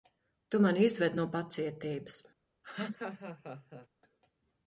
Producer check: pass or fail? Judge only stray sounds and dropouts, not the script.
fail